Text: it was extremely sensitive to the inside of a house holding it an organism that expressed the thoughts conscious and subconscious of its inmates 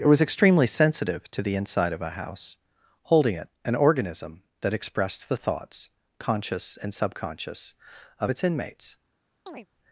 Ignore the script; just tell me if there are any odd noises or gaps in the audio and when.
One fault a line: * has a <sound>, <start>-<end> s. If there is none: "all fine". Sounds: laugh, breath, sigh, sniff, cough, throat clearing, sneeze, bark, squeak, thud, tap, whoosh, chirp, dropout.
* has a chirp, 9.5-9.7 s